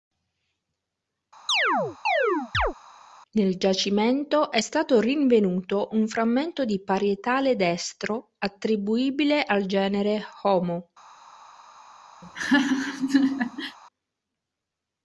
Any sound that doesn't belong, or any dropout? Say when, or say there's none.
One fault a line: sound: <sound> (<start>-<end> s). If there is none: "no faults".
sound: chirp (1.5-2.7 s)
sound: laugh (12.2-13.8 s)